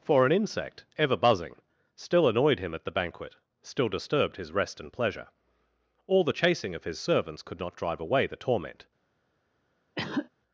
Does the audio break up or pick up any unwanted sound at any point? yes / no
yes